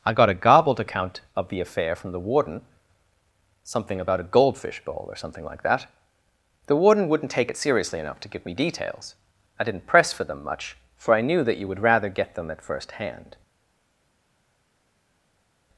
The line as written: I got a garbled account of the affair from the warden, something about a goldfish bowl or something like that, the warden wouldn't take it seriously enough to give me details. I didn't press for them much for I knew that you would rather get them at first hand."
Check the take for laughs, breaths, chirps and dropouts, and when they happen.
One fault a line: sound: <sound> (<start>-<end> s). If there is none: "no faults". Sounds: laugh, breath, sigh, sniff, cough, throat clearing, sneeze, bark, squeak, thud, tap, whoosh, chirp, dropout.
no faults